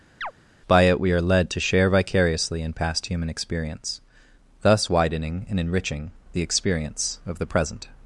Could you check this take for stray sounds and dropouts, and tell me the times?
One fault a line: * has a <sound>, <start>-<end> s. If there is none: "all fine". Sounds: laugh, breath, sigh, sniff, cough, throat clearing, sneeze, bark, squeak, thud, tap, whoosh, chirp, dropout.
* has a chirp, 0.2-0.3 s